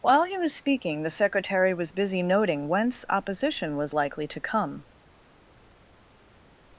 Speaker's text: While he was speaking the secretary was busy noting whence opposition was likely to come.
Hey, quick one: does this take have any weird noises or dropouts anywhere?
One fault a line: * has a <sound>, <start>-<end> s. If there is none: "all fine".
all fine